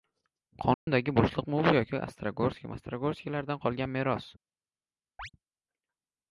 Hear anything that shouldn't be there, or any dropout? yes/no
yes